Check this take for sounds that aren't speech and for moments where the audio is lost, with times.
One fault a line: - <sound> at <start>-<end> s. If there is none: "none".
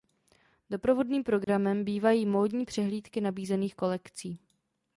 - dropout at 1.4-1.5 s